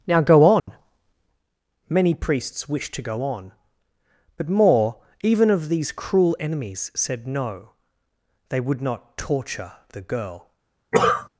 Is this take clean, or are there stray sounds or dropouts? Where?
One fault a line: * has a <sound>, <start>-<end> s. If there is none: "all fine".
* has a dropout, 0.6-0.7 s
* has a cough, 10.9-11.3 s